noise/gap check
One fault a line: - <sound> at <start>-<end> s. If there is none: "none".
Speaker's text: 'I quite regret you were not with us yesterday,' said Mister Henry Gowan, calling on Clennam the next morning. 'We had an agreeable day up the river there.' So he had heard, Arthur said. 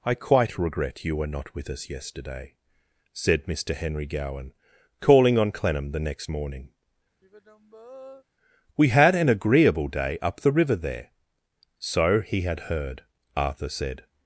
- sigh at 7.2-8.2 s